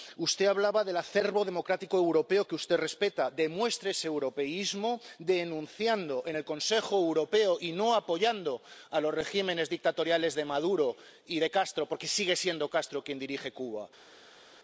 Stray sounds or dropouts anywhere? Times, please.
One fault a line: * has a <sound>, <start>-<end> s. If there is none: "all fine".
all fine